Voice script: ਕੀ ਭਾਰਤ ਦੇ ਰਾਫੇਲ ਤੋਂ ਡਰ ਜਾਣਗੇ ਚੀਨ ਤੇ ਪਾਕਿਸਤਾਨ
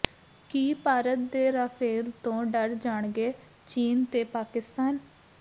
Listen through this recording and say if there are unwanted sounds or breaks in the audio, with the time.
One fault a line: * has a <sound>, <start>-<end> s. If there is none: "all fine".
all fine